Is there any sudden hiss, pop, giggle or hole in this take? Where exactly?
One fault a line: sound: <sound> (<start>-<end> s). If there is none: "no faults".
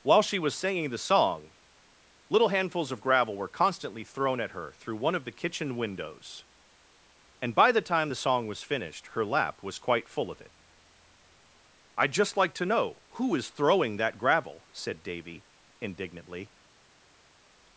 no faults